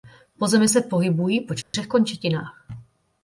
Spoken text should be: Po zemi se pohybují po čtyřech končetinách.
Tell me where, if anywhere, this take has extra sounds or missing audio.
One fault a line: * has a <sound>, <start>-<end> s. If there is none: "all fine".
* has a dropout, 1.6-1.7 s